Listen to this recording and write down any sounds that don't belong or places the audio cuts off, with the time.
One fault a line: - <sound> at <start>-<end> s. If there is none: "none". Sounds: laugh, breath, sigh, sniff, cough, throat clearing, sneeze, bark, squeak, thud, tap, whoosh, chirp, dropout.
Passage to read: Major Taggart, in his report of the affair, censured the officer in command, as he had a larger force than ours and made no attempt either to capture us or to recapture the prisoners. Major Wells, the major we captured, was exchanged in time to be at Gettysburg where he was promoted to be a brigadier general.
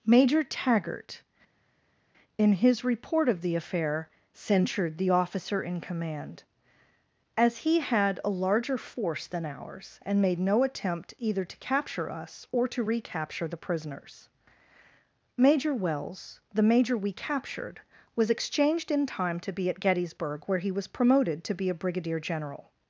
none